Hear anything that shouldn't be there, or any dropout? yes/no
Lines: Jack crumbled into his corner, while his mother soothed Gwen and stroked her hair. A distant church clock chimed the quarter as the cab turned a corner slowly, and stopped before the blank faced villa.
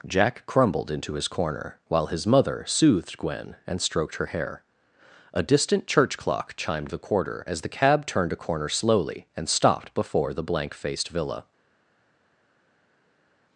no